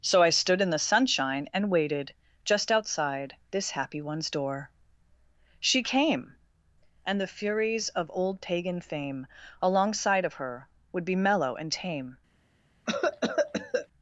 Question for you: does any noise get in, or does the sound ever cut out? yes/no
yes